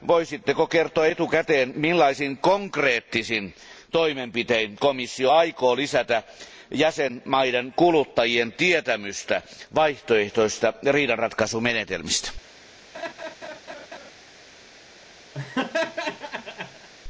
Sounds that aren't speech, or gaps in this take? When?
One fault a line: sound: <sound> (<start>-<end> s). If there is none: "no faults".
sound: laugh (12.9-14.1 s)
sound: laugh (15.3-16.9 s)